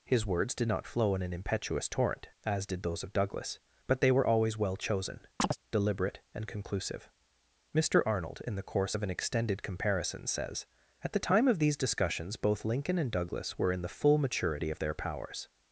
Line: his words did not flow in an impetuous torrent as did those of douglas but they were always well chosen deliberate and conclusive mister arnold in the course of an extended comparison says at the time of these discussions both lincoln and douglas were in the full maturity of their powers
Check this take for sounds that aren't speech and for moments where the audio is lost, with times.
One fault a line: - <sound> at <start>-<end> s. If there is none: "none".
- chirp at 5.4-5.6 s